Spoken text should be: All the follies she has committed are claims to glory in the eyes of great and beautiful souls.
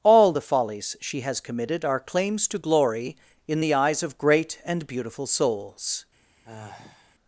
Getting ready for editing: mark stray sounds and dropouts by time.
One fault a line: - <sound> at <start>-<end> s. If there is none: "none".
- sigh at 6.4-7.1 s